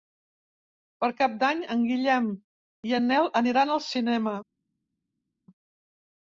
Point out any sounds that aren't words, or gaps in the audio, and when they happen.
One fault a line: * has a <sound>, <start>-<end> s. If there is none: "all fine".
all fine